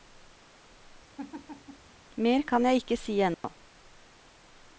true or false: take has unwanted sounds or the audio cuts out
true